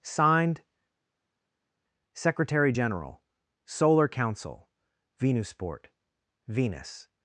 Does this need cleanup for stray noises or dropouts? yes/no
no